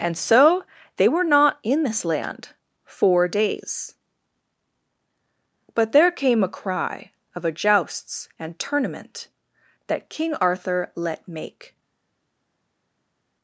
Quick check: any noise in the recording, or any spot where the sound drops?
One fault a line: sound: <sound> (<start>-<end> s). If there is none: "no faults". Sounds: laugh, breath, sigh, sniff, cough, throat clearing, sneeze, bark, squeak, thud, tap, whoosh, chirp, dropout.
no faults